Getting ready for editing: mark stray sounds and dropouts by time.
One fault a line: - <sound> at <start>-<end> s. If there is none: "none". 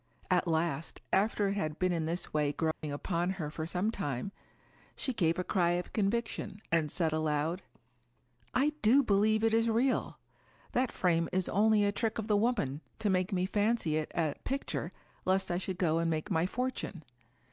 - dropout at 2.7-2.8 s